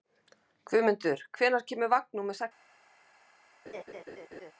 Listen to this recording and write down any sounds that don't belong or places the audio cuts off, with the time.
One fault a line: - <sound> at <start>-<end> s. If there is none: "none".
- laugh at 3.7-4.5 s